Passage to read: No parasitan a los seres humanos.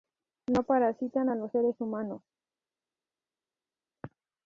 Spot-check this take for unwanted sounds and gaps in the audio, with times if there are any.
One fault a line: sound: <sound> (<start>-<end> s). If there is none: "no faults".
no faults